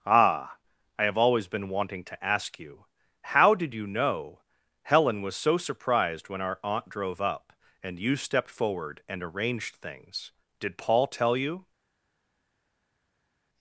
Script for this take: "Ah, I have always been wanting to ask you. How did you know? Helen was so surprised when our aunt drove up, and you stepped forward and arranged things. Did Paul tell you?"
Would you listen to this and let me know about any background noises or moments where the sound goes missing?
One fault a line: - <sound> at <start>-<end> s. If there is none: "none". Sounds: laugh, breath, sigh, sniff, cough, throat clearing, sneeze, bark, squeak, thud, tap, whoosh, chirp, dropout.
none